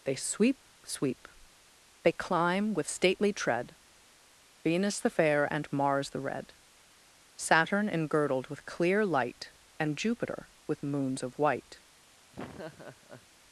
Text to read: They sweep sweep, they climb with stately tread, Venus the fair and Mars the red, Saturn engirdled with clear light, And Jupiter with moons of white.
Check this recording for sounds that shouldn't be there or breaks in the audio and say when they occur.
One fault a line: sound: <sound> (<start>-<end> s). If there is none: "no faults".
sound: laugh (12.3-13.3 s)